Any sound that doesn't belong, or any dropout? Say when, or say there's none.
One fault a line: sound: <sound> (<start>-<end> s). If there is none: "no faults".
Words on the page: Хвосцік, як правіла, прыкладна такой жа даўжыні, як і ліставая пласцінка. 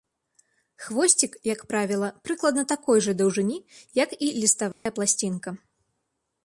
sound: dropout (4.7-4.9 s)